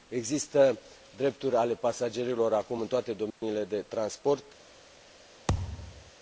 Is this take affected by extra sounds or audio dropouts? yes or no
yes